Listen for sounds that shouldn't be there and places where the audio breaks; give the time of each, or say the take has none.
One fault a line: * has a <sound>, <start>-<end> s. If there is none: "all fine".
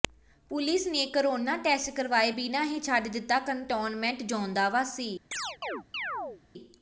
* has a chirp, 5.3-6.4 s